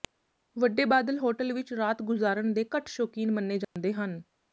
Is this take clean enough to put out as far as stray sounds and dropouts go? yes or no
no